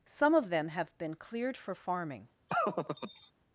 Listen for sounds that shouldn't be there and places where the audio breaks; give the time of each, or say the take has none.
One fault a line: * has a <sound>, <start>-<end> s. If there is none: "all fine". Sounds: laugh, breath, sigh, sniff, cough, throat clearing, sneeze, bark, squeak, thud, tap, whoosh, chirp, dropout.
* has a laugh, 2.5-3.3 s